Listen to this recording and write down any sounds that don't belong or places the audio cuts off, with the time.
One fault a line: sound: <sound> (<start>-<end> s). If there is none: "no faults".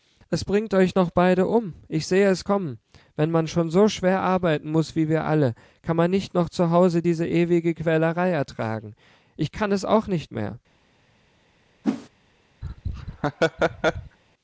sound: whoosh (11.8-12.1 s)
sound: laugh (12.6-14.2 s)